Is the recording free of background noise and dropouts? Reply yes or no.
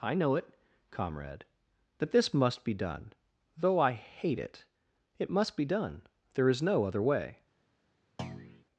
no